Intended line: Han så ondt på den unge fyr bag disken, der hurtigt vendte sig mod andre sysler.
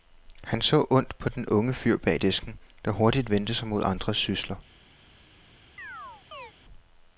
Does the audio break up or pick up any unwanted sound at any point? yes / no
yes